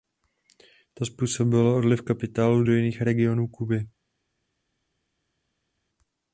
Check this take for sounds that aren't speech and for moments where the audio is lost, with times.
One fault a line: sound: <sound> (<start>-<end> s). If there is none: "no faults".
no faults